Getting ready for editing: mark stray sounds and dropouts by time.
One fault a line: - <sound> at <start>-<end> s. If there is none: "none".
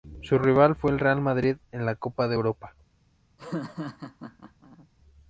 - laugh at 3.4-4.9 s